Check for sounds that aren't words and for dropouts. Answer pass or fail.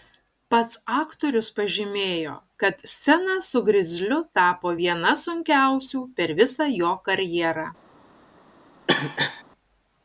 fail